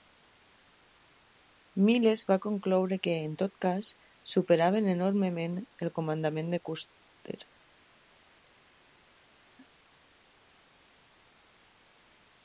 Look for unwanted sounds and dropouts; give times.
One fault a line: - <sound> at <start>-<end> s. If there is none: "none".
none